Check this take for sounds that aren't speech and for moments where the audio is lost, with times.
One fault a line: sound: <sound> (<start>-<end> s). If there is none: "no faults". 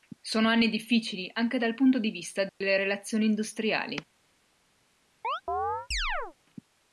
sound: dropout (2.5-2.6 s)
sound: chirp (5.2-6.4 s)